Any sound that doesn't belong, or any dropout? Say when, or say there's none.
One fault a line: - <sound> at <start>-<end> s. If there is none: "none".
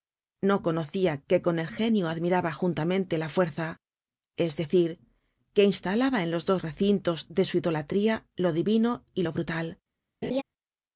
- laugh at 10.2-10.4 s